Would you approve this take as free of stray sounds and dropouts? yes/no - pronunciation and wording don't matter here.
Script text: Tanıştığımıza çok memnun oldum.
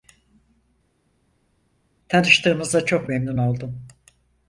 yes